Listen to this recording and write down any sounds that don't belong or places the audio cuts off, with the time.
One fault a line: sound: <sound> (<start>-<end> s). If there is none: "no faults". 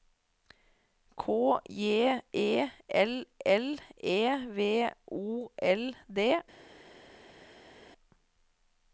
no faults